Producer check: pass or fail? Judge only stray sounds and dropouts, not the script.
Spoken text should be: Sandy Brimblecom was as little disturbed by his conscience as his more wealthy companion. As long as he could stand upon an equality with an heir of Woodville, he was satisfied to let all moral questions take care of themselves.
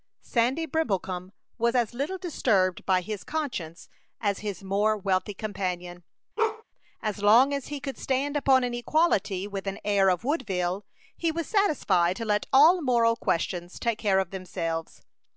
fail